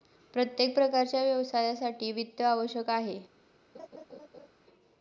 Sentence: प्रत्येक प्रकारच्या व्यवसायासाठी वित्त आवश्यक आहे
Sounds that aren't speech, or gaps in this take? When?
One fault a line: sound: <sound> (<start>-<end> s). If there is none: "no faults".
sound: laugh (3.7-4.5 s)